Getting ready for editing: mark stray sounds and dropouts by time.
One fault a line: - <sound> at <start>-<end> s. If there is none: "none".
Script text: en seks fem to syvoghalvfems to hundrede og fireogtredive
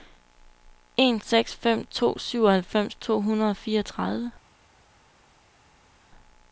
none